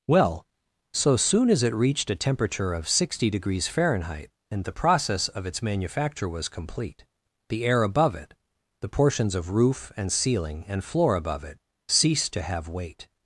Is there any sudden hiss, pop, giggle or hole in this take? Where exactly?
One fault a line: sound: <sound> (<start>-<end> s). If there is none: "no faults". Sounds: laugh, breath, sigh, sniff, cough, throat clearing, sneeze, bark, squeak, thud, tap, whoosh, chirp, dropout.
no faults